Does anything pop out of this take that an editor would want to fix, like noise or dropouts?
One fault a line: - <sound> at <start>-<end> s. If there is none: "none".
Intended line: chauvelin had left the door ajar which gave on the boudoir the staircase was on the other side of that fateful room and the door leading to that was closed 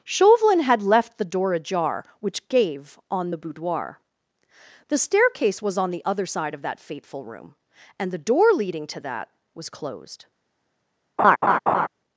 - laugh at 11.2-11.9 s